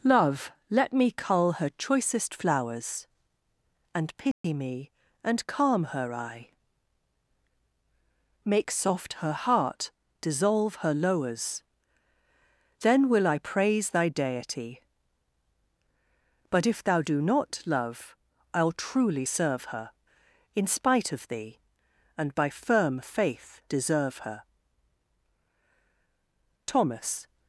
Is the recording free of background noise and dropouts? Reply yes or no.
no